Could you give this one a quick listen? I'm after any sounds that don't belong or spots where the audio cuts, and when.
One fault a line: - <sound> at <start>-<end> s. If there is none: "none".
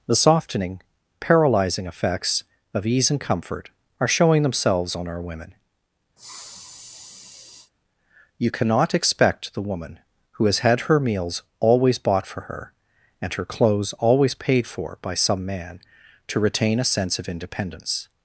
- sniff at 6.2-7.7 s